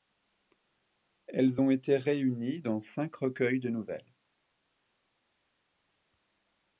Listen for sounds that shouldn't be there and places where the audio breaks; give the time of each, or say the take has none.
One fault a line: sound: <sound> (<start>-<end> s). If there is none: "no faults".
no faults